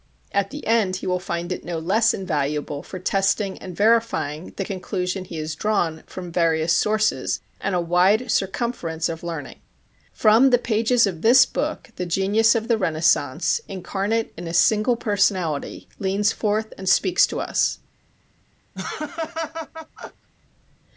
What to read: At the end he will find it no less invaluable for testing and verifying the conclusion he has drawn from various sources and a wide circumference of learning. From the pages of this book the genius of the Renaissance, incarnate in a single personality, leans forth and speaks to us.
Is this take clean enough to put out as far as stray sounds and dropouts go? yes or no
no